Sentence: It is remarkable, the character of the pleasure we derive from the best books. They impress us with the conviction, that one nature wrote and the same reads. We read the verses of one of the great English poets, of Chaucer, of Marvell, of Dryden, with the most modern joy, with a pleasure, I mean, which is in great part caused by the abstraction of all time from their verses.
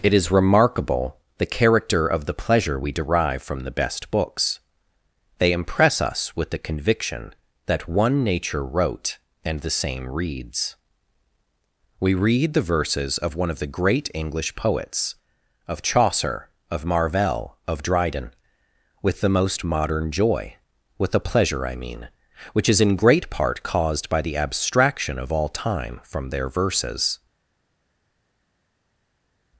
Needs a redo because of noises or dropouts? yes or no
no